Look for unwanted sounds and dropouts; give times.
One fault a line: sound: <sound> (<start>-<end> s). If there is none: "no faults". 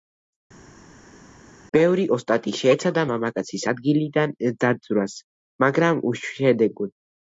no faults